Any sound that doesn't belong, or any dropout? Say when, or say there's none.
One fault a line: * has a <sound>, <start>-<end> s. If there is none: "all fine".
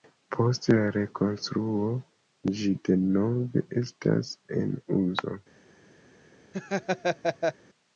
* has a laugh, 6.5-7.5 s